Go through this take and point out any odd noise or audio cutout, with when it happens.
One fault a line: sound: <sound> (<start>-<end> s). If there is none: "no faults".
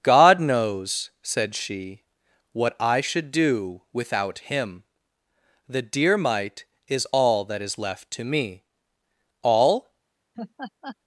sound: laugh (10.3-11.0 s)